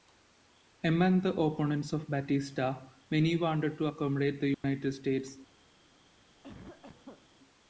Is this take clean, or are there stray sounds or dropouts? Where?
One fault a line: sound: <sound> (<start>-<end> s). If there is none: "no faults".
sound: dropout (4.5-4.6 s)
sound: cough (6.4-7.3 s)